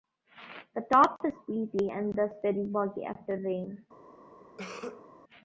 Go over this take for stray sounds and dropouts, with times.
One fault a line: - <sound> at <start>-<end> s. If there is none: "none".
- cough at 4.6-5.1 s